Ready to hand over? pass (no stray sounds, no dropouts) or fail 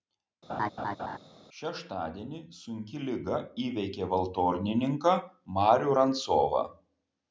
fail